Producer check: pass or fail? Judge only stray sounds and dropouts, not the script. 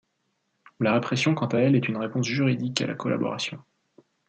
pass